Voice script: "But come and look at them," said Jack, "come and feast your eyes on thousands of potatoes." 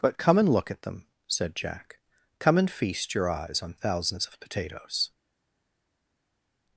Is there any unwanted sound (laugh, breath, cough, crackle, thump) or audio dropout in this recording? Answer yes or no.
no